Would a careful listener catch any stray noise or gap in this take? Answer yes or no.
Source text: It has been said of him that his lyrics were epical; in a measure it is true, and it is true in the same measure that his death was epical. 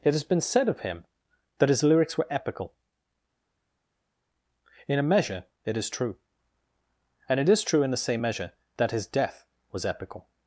no